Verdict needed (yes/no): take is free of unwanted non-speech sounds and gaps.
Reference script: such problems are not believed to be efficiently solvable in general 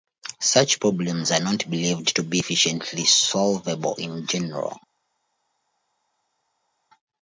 yes